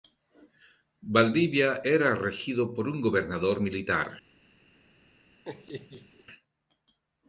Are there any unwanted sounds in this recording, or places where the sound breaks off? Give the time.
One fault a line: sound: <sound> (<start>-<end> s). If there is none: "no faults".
sound: laugh (5.4-6.2 s)